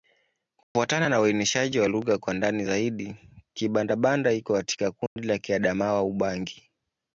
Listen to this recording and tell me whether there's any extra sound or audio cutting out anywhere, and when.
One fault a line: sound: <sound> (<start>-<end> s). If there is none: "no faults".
sound: dropout (0.6-0.8 s)
sound: dropout (5.1-5.2 s)